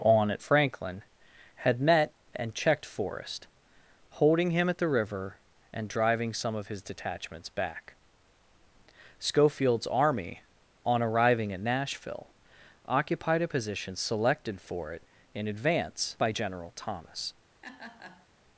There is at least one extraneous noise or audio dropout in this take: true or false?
true